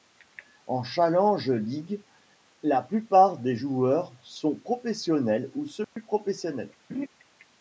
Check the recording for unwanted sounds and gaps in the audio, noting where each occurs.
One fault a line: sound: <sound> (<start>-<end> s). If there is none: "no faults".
sound: dropout (5.8-6.0 s)
sound: laugh (6.9-7.1 s)